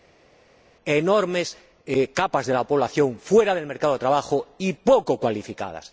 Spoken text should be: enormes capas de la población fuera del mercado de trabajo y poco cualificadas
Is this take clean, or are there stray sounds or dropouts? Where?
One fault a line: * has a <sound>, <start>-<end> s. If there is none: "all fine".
all fine